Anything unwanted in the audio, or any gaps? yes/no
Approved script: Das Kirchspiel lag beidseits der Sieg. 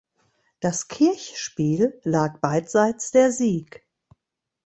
no